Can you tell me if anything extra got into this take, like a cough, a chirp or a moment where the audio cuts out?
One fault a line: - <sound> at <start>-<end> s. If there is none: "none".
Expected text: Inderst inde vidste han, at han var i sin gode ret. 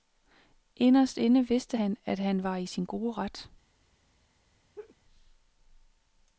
- laugh at 4.7-5.0 s